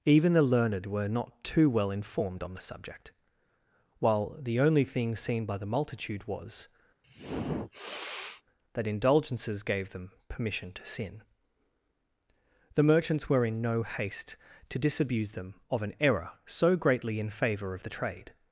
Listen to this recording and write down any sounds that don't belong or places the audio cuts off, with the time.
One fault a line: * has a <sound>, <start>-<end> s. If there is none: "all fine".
* has a sniff, 7.0-8.4 s